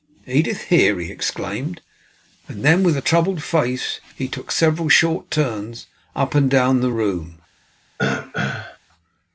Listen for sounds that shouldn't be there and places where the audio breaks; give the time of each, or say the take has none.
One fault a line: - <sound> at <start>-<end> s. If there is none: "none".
- throat clearing at 8.0-8.8 s